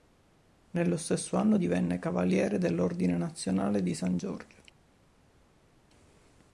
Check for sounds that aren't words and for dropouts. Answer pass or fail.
pass